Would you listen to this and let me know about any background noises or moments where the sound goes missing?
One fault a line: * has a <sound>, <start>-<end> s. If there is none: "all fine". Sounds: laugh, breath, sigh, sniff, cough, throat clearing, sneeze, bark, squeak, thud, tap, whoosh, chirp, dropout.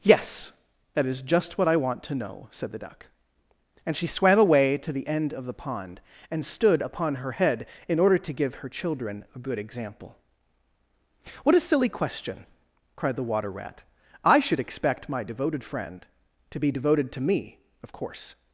all fine